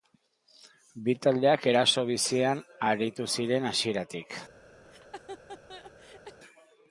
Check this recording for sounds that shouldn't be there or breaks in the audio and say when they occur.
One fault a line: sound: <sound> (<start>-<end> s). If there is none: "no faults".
sound: laugh (4.8-6.4 s)